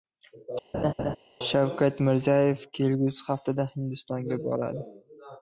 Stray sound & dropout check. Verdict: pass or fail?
fail